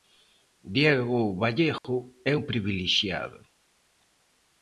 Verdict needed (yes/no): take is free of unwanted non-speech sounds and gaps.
no